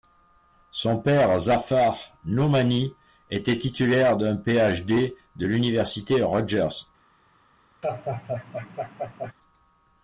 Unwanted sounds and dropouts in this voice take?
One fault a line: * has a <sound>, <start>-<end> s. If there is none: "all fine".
* has a laugh, 7.8-9.3 s